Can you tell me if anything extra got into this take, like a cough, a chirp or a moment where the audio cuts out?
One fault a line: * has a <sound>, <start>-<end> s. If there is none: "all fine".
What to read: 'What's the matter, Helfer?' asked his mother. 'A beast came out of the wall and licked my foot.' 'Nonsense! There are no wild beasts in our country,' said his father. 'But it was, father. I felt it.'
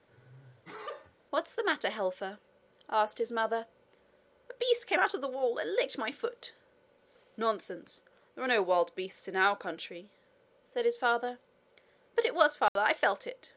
* has a sneeze, 0.1-1.2 s
* has a dropout, 12.7-12.8 s